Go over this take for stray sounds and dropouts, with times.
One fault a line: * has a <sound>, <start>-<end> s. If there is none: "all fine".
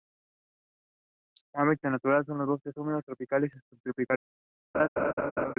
* has a laugh, 4.7-5.5 s